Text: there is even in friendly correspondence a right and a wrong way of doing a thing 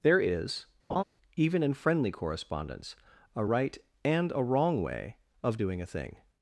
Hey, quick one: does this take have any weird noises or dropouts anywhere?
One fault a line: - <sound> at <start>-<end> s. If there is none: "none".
- laugh at 0.9-1.0 s